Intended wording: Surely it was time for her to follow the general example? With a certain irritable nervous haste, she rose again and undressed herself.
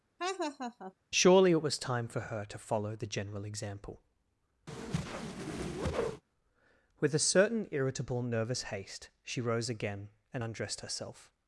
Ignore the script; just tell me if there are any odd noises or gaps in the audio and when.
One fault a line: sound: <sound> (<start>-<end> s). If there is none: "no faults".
sound: laugh (0.2-0.9 s)
sound: whoosh (4.7-6.2 s)